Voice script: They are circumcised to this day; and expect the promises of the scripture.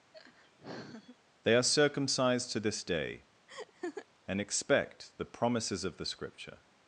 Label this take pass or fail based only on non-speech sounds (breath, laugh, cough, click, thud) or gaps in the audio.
fail